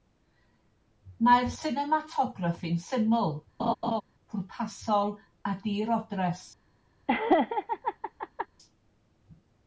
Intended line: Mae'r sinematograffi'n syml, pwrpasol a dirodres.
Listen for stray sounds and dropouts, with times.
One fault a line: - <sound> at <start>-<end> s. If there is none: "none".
- laugh at 3.6-4.0 s
- laugh at 7.1-8.5 s